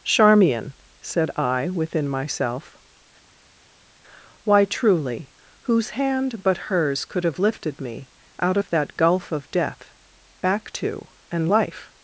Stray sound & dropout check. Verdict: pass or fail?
pass